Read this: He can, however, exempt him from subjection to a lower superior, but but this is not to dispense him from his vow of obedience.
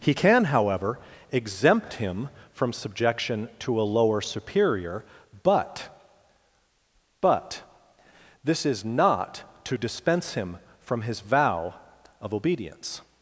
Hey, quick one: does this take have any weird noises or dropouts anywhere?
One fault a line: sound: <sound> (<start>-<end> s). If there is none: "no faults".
no faults